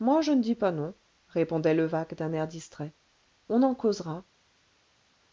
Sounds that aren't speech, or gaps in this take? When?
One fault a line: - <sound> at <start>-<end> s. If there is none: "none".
none